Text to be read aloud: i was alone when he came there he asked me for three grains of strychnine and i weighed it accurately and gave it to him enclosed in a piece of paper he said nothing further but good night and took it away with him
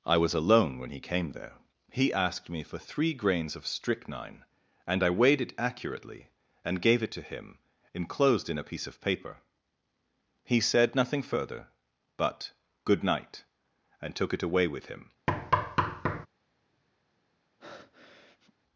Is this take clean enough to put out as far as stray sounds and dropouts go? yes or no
no